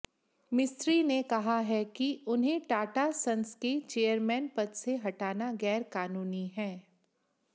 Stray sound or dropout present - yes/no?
no